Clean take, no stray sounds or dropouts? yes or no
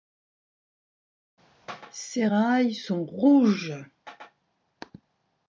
yes